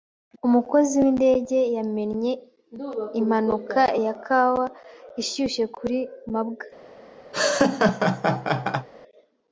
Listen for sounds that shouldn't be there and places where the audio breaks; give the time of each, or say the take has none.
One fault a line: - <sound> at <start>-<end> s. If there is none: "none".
- laugh at 7.3-8.9 s